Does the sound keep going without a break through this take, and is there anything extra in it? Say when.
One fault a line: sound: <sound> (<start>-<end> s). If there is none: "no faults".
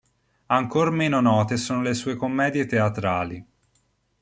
no faults